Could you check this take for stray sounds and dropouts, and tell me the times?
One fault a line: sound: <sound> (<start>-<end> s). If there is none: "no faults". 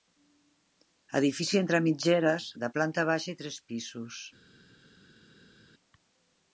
no faults